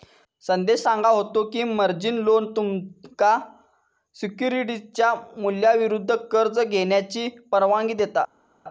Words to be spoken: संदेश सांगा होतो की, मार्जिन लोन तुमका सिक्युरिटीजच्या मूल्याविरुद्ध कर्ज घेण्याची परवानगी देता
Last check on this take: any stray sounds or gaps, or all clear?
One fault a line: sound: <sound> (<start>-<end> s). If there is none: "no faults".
no faults